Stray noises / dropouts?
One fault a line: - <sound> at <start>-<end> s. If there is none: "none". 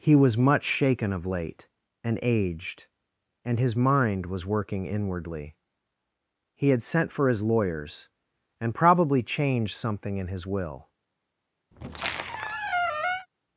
- squeak at 11.7-13.3 s